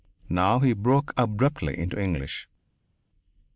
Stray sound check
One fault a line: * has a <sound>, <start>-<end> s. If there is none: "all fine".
all fine